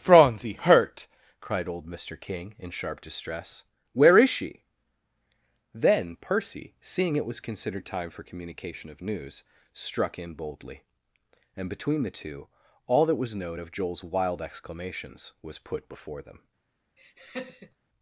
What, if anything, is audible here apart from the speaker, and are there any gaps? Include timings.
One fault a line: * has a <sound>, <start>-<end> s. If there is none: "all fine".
* has a laugh, 17.0-17.8 s